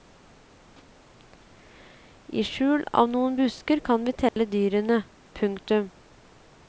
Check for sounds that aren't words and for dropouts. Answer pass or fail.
fail